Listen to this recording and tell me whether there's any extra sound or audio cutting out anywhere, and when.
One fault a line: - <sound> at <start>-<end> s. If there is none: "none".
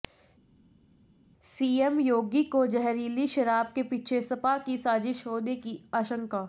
none